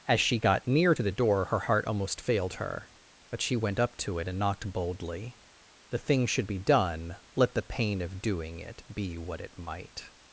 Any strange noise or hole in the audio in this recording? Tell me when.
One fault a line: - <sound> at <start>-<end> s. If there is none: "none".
none